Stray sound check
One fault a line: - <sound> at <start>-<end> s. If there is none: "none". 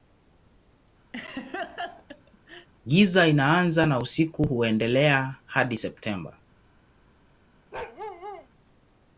- laugh at 1.1-2.7 s
- bark at 7.7-8.5 s